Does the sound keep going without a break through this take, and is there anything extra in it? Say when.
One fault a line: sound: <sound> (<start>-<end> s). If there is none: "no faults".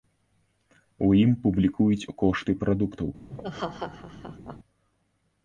sound: laugh (3.3-4.6 s)